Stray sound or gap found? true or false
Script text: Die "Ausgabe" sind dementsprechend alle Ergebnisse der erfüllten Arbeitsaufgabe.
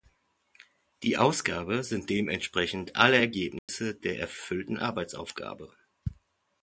true